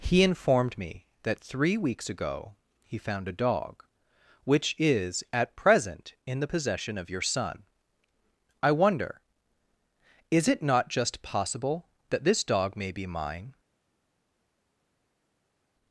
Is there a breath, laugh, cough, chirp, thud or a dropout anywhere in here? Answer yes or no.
no